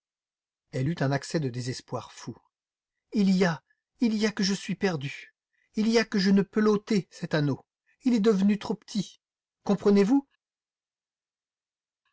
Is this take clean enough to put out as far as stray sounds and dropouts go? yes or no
yes